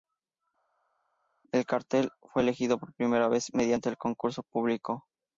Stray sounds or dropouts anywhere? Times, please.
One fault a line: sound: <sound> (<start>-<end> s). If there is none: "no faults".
no faults